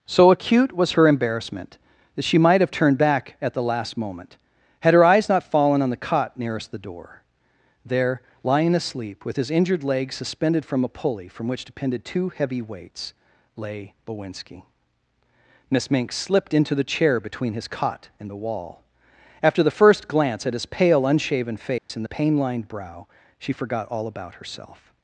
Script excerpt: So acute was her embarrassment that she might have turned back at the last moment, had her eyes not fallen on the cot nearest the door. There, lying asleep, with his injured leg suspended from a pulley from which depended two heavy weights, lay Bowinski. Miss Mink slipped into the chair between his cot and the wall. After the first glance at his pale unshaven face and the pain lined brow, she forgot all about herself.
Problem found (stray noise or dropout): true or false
true